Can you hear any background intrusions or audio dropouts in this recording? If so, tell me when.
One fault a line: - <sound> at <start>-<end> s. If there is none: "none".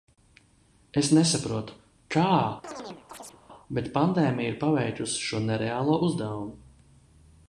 - chirp at 2.6-3.4 s